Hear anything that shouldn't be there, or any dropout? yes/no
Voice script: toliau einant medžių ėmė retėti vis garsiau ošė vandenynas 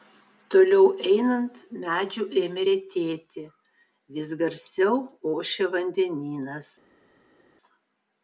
no